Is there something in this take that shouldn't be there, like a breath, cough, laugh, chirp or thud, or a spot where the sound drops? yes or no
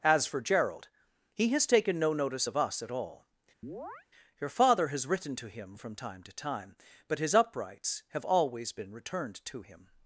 yes